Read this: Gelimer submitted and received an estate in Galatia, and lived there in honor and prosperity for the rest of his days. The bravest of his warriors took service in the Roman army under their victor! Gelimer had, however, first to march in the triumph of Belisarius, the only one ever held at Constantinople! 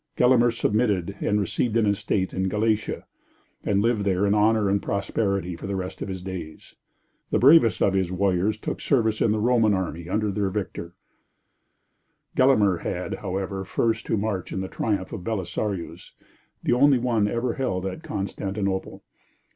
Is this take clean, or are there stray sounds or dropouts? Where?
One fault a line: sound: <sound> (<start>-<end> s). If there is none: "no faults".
no faults